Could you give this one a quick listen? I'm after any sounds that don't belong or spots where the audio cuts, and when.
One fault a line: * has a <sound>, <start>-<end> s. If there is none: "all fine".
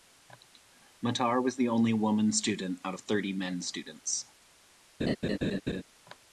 * has a laugh, 5.0-5.8 s